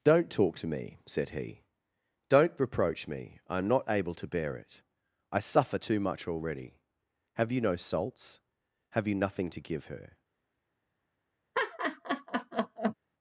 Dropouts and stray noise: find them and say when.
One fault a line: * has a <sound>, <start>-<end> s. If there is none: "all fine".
* has a laugh, 11.5-12.9 s